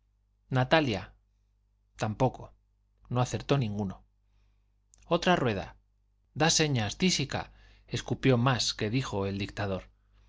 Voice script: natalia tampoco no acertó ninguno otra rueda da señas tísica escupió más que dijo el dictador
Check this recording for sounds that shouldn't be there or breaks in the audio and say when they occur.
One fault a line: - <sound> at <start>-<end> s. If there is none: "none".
none